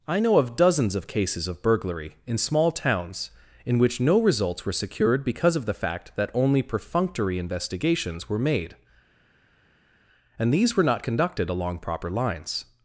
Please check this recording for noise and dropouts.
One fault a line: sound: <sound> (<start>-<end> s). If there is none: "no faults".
no faults